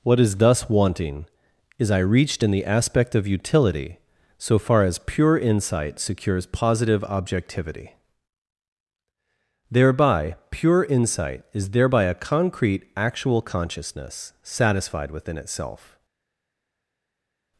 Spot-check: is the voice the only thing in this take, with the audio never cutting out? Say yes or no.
yes